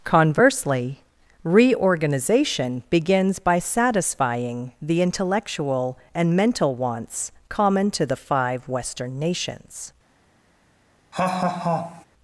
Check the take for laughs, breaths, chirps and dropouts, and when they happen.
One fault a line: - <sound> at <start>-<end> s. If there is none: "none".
- laugh at 11.1-12.1 s